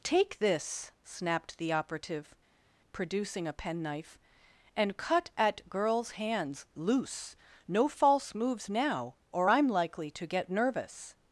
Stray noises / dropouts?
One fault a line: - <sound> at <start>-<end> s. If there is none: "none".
none